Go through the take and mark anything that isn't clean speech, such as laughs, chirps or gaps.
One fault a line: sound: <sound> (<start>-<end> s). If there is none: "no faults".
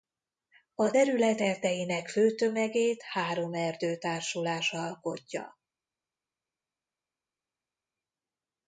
no faults